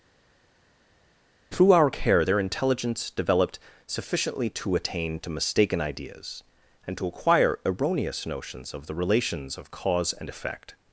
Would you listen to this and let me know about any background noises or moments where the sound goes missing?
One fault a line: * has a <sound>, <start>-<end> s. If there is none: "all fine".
all fine